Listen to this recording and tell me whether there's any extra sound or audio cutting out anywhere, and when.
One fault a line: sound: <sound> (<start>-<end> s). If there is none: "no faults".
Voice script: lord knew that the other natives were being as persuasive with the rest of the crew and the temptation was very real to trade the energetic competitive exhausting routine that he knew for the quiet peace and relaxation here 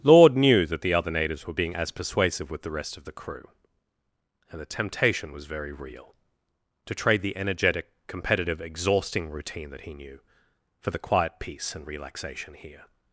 no faults